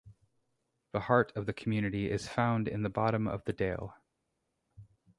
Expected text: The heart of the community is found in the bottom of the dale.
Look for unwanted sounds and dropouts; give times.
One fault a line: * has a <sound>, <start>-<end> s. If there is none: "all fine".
all fine